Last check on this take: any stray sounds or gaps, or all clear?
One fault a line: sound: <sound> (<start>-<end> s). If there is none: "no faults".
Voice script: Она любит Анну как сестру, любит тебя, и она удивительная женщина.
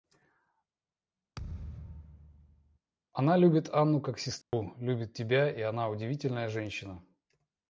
sound: thud (1.3-2.8 s)
sound: dropout (4.4-4.5 s)